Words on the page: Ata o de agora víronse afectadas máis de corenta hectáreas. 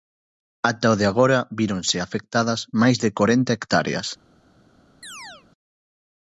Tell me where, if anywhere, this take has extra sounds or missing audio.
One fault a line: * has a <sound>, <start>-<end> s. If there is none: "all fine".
* has a chirp, 5.0-5.5 s